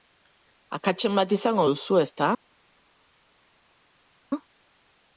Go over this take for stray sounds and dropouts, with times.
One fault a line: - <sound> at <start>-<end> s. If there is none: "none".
none